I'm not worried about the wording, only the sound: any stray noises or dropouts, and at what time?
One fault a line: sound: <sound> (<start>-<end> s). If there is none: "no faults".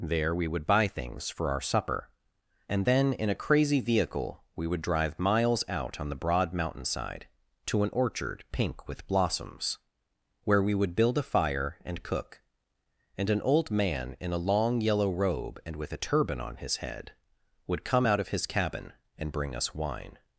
no faults